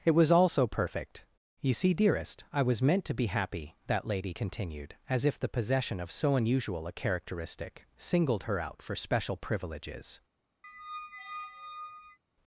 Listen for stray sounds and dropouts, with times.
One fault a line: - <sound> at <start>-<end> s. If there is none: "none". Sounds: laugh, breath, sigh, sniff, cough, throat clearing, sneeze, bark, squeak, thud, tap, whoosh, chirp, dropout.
- squeak at 10.6-12.2 s